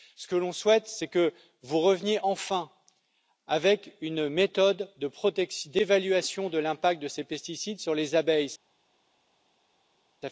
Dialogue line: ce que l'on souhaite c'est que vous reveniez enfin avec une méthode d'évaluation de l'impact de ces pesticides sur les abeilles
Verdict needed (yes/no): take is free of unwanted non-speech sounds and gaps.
yes